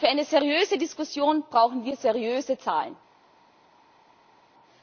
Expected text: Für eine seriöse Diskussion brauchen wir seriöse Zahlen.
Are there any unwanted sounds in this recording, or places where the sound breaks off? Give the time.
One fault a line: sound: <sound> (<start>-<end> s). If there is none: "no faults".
no faults